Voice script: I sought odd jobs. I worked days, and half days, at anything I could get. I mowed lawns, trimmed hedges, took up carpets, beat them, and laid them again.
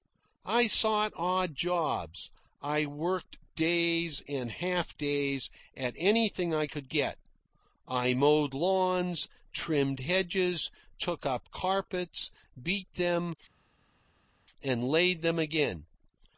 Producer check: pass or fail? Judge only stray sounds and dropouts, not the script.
pass